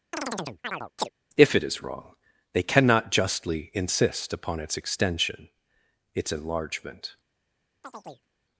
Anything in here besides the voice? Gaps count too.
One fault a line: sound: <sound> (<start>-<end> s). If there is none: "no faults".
sound: chirp (0.1-1.1 s)
sound: chirp (7.8-8.3 s)